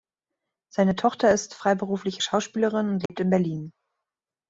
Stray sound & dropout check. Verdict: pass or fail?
fail